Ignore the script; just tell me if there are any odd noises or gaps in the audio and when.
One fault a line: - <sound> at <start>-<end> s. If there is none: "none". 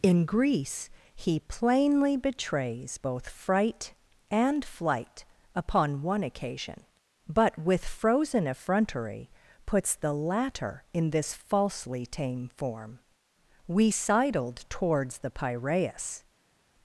none